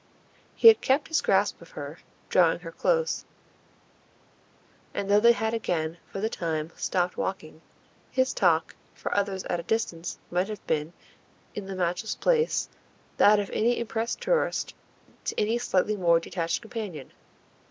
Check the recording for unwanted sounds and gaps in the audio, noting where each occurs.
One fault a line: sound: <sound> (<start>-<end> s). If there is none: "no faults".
no faults